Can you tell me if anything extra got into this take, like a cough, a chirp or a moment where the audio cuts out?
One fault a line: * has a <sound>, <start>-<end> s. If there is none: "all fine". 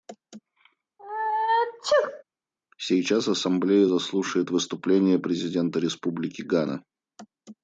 * has a sneeze, 1.0-2.2 s